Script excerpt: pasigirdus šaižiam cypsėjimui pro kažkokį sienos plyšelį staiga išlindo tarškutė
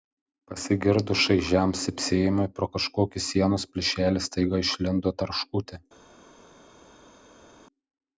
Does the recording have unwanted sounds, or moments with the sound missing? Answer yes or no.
no